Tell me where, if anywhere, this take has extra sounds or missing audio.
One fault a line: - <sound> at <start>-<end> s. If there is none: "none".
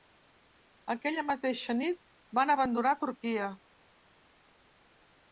none